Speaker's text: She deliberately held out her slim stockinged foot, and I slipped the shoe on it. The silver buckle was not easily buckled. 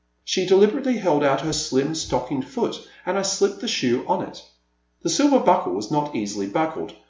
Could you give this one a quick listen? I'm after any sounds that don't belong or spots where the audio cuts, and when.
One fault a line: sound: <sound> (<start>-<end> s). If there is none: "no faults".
no faults